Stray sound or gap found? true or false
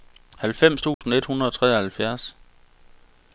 true